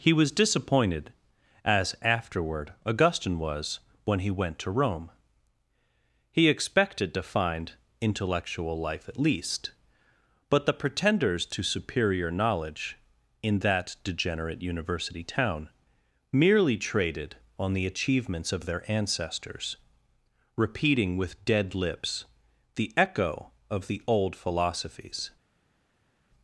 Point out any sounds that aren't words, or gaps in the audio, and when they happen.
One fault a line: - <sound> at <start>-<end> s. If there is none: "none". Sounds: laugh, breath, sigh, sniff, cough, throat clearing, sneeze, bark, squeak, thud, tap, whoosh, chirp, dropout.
none